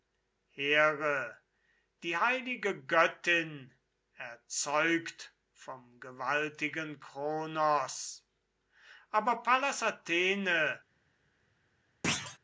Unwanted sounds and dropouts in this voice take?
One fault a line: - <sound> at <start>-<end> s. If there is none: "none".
- thud at 12.0-12.4 s